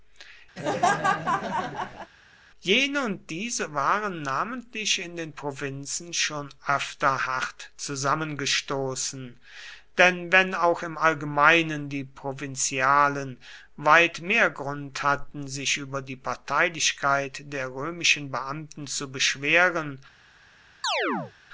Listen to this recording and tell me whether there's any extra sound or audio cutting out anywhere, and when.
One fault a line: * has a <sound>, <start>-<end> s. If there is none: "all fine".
* has a laugh, 0.6-2.1 s
* has a chirp, 20.8-21.3 s